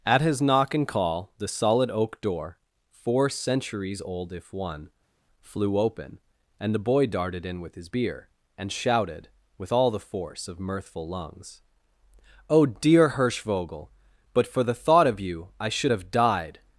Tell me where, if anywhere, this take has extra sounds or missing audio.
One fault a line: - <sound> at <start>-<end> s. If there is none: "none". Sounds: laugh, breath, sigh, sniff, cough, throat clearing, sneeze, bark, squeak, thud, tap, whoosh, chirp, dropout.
none